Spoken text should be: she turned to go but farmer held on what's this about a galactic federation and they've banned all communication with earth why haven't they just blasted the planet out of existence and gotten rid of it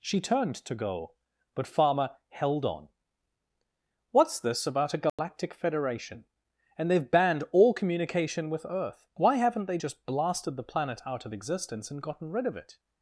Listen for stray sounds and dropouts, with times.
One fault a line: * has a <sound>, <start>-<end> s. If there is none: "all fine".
* has a dropout, 5.1-5.2 s